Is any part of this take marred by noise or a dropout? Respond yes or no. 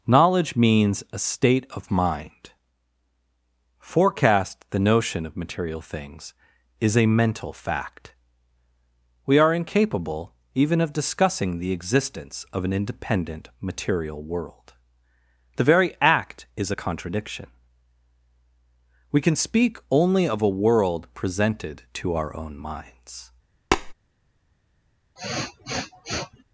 yes